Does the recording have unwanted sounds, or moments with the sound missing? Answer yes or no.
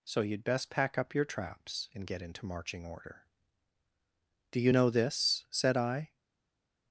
no